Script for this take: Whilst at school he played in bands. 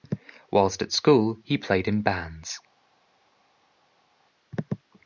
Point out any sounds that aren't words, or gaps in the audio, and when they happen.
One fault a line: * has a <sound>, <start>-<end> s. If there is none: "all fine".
all fine